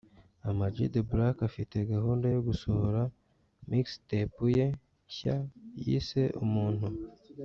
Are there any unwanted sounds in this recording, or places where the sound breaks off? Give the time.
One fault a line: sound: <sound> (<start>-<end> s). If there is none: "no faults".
no faults